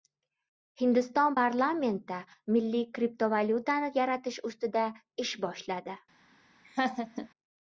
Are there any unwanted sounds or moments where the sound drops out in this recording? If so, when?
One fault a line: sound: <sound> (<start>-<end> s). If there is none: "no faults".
sound: laugh (6.6-7.3 s)